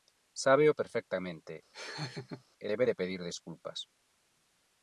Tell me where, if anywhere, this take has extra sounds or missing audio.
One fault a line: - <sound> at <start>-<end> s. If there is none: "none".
- laugh at 1.7-2.4 s